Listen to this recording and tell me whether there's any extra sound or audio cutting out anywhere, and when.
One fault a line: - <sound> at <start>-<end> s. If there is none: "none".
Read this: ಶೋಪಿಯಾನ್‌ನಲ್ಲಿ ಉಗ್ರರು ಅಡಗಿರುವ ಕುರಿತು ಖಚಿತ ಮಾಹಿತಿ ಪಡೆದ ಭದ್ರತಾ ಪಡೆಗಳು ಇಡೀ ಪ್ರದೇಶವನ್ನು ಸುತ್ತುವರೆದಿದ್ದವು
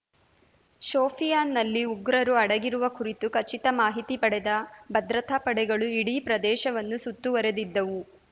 none